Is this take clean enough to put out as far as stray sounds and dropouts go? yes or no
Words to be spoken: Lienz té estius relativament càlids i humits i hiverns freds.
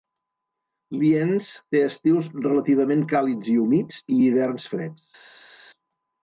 yes